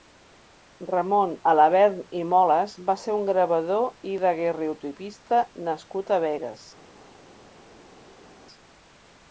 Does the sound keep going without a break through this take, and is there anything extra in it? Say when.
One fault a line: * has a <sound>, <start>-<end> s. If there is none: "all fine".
all fine